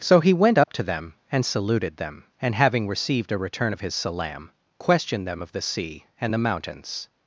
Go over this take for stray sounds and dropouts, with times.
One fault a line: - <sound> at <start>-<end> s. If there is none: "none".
- dropout at 0.6-0.7 s